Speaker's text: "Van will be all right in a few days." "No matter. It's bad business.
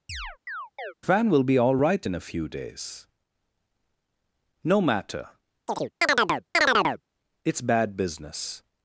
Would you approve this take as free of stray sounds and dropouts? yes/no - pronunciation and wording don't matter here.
no